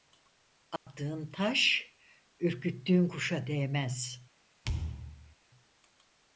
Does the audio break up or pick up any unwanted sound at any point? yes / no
yes